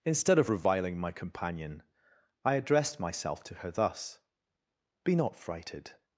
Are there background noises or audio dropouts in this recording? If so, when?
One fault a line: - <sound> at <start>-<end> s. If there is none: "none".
none